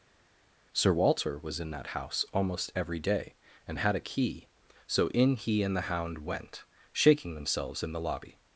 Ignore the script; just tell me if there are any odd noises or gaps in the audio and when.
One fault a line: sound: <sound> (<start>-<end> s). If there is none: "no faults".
no faults